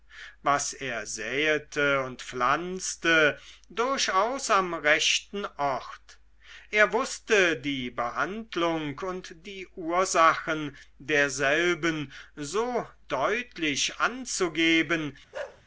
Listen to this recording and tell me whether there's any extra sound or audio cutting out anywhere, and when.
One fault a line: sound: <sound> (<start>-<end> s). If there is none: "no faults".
sound: bark (15.3-15.6 s)